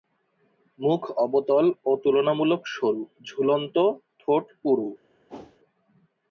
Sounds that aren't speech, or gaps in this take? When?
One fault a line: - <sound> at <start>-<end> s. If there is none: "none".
- whoosh at 5.3-5.6 s